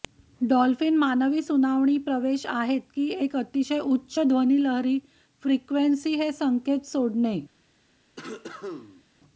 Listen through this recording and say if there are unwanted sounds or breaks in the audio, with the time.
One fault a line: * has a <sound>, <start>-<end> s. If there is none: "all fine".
* has a cough, 8.2-9.0 s